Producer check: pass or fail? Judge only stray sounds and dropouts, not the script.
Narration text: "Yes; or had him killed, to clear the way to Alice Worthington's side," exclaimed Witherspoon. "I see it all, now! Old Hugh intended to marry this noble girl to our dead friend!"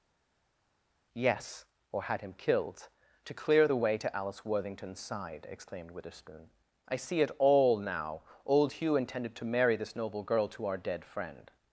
pass